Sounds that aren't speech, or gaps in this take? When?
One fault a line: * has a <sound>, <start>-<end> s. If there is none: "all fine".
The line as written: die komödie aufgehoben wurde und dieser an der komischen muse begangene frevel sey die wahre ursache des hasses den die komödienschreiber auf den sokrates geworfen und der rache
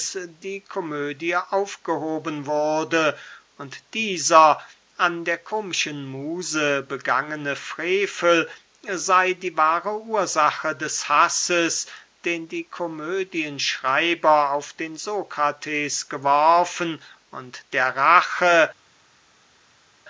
all fine